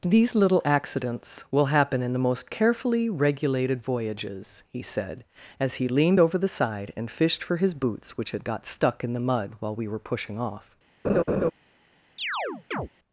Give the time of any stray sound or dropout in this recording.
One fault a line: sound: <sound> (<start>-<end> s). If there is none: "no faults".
sound: laugh (11.0-11.5 s)
sound: chirp (12.2-12.9 s)